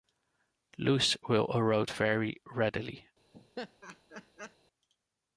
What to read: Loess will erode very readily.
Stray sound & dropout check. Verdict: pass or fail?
fail